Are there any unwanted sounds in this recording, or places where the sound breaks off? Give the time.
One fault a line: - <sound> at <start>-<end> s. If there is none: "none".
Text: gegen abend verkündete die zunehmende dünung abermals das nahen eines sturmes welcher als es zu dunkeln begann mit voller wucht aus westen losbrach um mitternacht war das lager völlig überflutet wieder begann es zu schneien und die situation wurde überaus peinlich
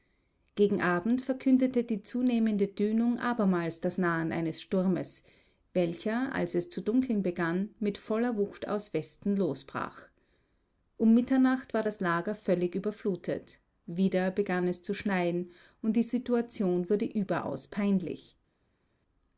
none